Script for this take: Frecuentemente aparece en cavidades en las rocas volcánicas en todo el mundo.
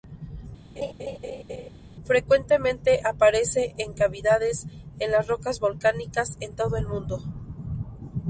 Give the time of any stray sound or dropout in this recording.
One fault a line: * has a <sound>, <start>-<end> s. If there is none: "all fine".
* has a laugh, 0.8-1.7 s